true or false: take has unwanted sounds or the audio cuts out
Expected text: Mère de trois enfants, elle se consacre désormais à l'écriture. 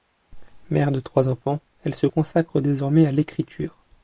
false